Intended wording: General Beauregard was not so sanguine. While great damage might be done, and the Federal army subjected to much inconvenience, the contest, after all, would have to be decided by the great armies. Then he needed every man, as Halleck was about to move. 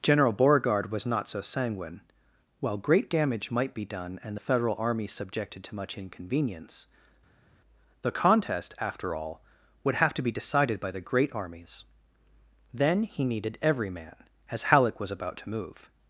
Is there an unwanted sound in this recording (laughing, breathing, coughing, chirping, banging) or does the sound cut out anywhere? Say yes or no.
no